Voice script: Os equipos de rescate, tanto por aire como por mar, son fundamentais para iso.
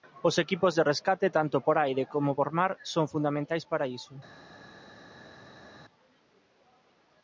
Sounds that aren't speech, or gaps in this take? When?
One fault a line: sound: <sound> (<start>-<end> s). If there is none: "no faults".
no faults